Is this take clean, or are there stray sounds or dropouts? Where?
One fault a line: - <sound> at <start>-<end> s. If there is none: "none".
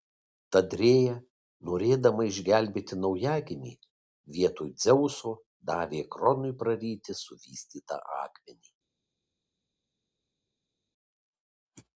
none